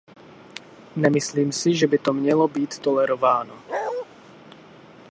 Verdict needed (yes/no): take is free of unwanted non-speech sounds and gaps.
no